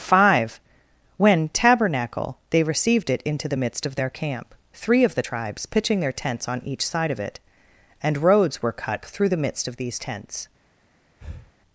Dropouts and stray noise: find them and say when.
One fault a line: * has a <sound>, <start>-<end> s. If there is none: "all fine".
* has a breath, 11.2-11.5 s